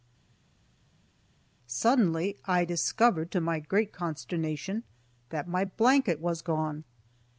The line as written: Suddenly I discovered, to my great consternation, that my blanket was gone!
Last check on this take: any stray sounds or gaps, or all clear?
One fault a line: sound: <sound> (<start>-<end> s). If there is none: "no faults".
no faults